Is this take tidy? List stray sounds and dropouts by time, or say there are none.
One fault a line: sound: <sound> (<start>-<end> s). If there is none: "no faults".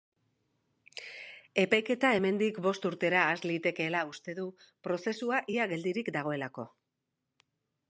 no faults